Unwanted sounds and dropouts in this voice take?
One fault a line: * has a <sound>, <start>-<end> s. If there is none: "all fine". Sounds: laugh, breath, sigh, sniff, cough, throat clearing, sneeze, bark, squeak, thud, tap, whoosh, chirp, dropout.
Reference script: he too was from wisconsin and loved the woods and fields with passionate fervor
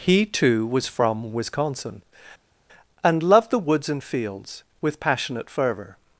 all fine